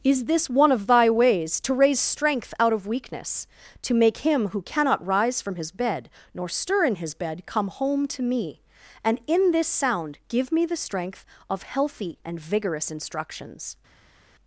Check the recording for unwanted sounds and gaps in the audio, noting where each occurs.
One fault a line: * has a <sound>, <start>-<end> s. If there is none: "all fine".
all fine